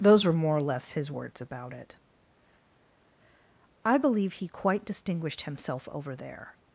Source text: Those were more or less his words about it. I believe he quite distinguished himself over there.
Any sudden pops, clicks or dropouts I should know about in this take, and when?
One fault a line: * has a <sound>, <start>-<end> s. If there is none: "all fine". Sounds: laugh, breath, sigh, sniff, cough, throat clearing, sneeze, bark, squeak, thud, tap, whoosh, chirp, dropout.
all fine